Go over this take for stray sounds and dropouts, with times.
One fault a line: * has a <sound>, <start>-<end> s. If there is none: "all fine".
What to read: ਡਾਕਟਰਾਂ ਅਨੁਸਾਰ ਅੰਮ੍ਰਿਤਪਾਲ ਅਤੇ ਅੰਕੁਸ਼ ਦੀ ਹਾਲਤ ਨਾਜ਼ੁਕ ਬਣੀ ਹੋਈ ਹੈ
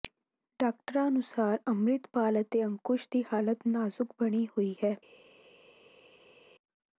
all fine